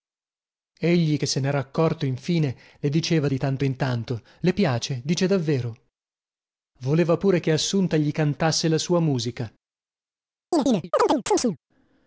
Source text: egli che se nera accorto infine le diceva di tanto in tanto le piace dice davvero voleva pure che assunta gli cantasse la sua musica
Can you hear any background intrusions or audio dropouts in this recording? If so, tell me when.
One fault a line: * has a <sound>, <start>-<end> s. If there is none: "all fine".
* has a chirp, 10.5-11.6 s